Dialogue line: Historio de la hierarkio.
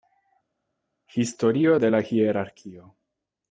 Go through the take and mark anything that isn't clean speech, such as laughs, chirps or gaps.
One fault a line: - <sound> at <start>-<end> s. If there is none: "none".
none